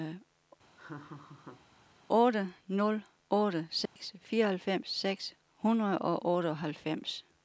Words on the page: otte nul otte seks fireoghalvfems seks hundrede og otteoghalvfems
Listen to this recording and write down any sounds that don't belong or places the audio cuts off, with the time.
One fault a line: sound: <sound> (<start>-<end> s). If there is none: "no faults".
sound: laugh (0.8-1.7 s)
sound: dropout (3.9-4.0 s)